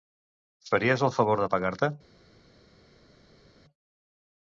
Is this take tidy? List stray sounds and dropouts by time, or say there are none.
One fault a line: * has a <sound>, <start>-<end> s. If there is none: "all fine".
all fine